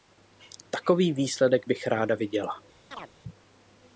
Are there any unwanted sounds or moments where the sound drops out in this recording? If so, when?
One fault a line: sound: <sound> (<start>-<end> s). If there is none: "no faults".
sound: chirp (2.9-3.1 s)